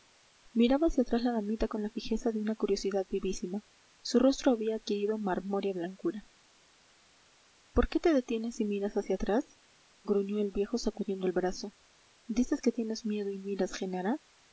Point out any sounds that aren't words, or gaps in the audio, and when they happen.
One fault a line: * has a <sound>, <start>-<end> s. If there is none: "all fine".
all fine